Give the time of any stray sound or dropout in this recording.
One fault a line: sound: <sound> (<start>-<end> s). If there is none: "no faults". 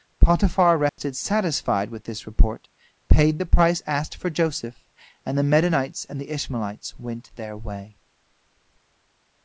sound: dropout (0.9-1.0 s)